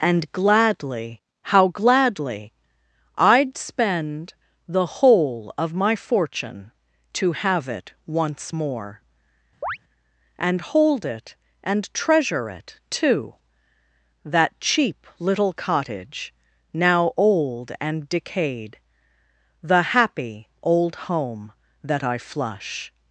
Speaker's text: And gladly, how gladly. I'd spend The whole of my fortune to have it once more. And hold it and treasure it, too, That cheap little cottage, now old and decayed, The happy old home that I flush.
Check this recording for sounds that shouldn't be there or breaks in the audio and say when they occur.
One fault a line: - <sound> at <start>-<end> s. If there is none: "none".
- chirp at 9.6-9.8 s